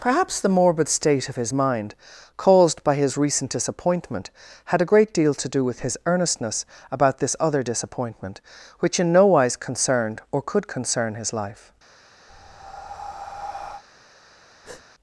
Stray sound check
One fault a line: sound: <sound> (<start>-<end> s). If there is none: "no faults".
sound: breath (12.3-13.8 s)
sound: breath (14.6-14.8 s)